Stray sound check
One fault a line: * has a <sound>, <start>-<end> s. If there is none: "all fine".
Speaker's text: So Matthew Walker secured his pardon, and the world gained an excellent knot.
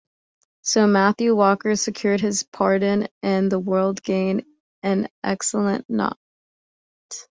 all fine